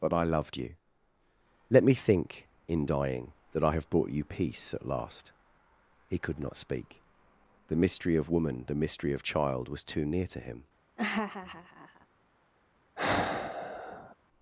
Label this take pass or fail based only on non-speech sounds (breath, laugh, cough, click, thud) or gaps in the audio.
fail